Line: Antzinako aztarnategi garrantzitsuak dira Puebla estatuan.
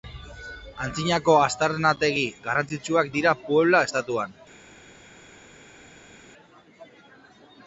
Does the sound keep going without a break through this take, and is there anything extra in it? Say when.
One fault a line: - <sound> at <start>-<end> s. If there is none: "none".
none